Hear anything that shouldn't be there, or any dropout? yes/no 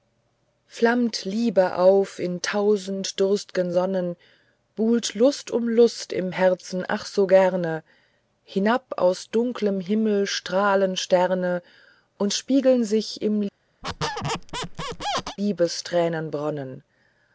yes